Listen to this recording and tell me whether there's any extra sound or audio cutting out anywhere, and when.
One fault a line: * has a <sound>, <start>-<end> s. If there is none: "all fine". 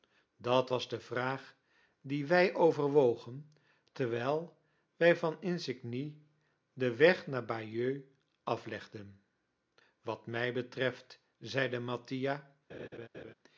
* has a laugh, 12.7-13.3 s